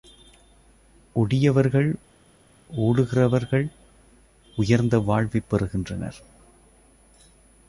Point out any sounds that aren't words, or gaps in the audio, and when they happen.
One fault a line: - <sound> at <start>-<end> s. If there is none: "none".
none